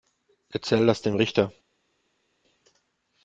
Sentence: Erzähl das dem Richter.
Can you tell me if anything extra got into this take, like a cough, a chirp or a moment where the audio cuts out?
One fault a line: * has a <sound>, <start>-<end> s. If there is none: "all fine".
all fine